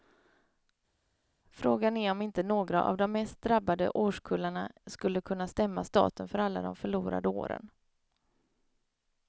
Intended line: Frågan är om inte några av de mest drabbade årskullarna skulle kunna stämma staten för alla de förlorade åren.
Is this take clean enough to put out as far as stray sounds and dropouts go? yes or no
yes